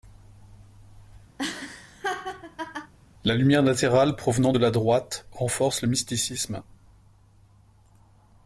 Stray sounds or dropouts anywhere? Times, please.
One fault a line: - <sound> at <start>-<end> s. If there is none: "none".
- laugh at 1.4-2.9 s